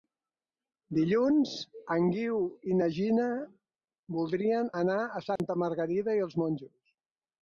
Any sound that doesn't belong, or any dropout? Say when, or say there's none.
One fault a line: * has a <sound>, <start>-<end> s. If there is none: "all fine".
* has a dropout, 5.4-5.4 s